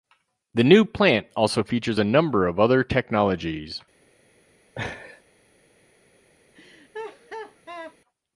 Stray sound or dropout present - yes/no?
yes